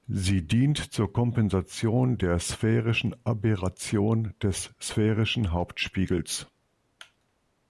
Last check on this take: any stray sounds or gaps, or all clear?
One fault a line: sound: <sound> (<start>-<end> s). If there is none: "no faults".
no faults